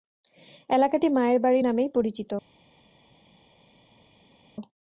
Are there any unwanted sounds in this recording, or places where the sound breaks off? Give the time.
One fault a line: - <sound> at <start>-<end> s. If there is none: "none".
none